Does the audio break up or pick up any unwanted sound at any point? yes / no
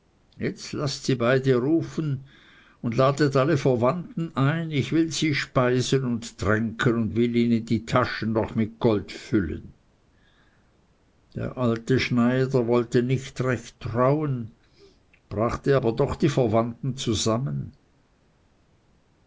no